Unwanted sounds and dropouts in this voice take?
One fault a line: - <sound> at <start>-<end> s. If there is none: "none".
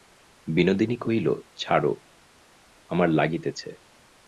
none